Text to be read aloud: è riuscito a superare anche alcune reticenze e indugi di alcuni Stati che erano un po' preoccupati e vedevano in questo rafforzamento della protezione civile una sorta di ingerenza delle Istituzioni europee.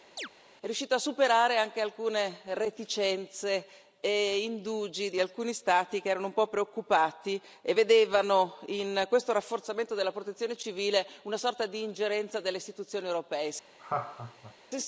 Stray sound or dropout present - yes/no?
yes